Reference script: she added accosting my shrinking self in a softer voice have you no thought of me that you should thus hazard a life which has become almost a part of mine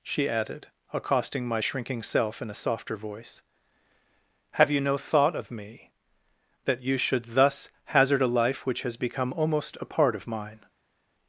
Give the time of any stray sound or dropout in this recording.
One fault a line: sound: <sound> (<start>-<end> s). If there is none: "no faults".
no faults